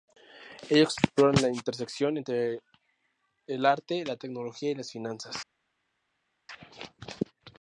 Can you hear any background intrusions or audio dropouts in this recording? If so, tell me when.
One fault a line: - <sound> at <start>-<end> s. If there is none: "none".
none